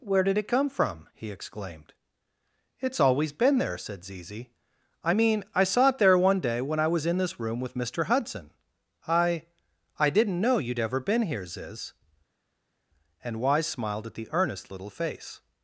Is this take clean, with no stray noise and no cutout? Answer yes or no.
yes